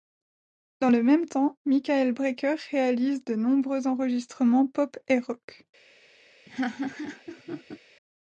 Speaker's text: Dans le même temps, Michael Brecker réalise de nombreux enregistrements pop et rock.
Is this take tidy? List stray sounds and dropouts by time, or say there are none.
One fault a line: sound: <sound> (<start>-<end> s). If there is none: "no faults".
sound: laugh (6.5-7.8 s)